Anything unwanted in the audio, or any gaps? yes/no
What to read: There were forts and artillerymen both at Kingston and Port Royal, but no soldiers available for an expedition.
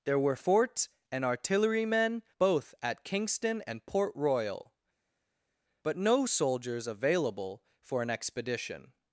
no